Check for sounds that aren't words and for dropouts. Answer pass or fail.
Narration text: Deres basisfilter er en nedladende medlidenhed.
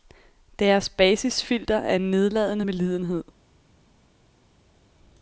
pass